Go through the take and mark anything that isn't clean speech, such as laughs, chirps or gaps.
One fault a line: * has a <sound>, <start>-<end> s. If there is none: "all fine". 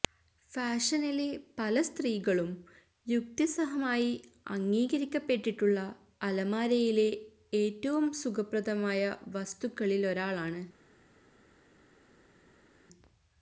all fine